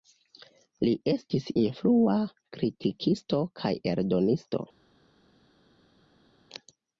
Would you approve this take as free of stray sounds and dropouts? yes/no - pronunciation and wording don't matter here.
yes